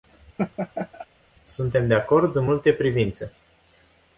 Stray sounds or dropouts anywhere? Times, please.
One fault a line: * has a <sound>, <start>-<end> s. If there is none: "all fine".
* has a laugh, 0.4-1.1 s